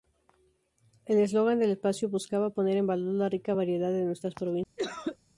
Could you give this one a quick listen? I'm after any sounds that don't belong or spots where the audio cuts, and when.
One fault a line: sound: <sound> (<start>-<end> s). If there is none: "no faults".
sound: cough (4.8-5.2 s)